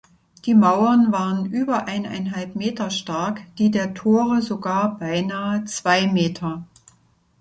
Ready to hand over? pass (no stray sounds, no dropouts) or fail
pass